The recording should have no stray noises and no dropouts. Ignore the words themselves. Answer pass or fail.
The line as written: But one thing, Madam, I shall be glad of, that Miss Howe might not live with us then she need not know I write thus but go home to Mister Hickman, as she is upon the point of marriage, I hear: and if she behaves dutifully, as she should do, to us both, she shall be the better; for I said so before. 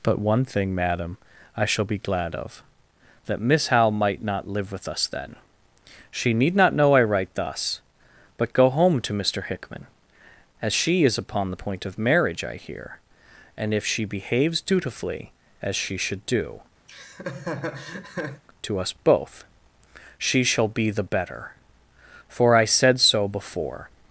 fail